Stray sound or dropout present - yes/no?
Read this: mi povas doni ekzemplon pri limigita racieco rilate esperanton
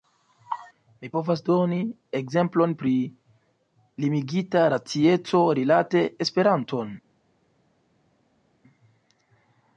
no